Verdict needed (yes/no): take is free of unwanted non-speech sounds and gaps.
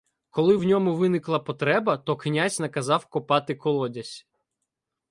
yes